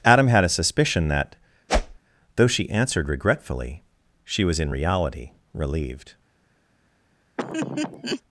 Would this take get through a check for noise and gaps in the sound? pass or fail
fail